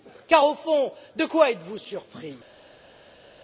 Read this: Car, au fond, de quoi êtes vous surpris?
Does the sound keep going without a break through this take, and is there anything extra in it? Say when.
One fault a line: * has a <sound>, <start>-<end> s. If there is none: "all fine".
all fine